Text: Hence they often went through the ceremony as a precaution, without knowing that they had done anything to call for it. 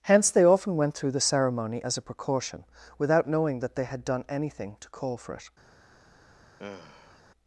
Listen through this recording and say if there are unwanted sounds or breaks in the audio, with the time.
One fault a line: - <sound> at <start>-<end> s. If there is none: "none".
- sigh at 6.6-7.2 s